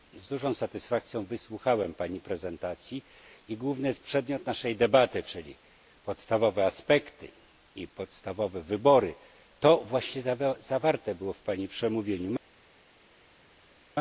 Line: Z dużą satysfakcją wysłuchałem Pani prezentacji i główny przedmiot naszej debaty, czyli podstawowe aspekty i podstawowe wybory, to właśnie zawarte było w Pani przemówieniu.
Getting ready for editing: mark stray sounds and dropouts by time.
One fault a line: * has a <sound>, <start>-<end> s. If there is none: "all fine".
all fine